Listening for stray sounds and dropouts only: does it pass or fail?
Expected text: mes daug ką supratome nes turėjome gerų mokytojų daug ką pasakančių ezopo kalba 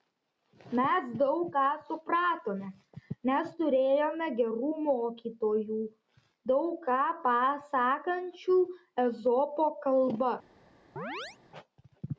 fail